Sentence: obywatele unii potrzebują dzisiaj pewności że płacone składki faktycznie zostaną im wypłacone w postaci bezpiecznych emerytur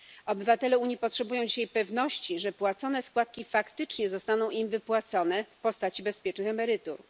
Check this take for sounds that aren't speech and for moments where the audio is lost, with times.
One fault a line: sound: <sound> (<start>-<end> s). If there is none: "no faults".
no faults